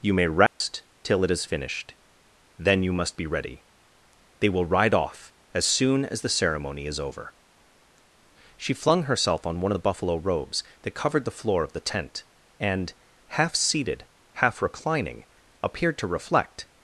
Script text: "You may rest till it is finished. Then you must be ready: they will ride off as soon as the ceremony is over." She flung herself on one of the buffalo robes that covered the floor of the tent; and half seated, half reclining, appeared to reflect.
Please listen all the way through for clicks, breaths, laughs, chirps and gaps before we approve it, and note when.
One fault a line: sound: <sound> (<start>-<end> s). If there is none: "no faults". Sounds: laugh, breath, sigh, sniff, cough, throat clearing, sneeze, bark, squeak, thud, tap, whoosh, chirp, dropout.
sound: dropout (0.5-0.6 s)